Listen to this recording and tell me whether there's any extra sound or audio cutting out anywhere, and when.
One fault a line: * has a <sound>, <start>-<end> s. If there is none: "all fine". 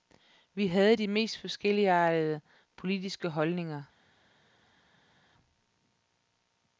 all fine